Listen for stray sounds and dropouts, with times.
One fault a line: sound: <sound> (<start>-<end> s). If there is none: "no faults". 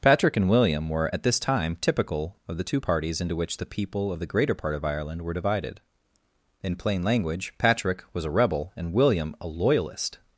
no faults